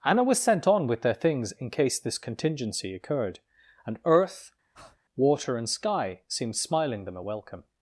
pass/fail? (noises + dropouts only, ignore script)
fail